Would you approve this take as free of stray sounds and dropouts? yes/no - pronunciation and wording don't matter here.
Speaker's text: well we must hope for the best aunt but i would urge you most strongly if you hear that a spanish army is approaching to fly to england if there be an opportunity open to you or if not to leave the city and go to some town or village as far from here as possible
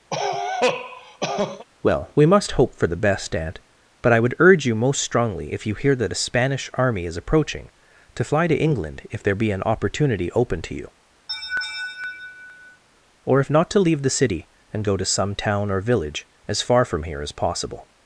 no